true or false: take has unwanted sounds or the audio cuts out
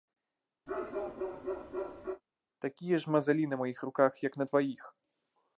true